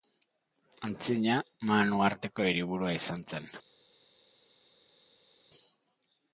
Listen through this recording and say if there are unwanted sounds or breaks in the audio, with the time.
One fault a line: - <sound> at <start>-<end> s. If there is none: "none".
none